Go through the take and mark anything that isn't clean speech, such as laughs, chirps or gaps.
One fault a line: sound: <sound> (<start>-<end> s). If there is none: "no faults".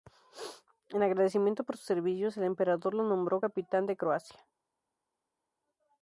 no faults